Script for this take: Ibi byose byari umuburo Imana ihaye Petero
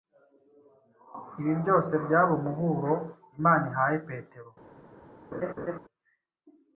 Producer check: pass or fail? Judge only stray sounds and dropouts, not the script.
fail